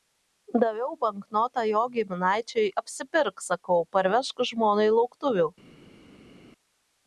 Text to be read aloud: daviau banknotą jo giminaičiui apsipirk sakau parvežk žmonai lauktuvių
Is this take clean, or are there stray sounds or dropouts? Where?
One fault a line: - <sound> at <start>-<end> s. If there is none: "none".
none